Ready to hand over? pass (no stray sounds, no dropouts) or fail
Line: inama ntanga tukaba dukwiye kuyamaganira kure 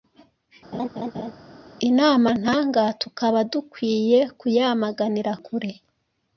fail